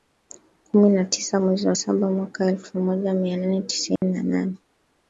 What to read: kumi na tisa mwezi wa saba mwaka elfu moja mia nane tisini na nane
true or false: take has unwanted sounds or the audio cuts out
true